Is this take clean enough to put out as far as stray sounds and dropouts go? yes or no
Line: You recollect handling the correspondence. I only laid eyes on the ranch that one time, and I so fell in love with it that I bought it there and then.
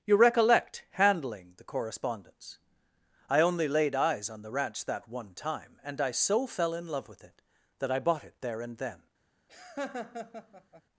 no